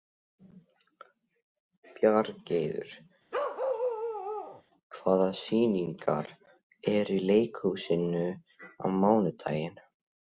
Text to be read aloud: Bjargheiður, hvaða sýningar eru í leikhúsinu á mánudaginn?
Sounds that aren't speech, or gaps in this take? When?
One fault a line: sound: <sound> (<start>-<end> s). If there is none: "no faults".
sound: bark (3.3-4.6 s)